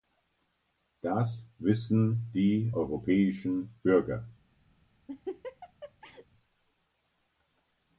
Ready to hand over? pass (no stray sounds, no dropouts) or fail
fail